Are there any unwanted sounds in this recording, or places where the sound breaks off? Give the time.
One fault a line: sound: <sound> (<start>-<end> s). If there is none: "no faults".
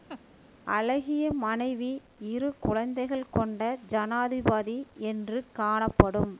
sound: laugh (0.1-0.2 s)